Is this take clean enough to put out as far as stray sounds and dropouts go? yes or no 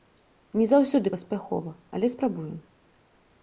yes